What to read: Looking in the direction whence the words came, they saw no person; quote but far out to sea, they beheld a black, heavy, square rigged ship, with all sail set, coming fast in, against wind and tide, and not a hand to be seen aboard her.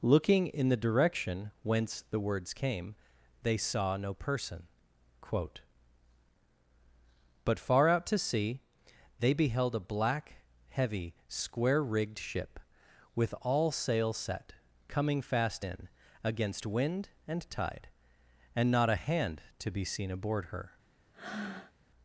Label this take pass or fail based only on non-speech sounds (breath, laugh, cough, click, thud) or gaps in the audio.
fail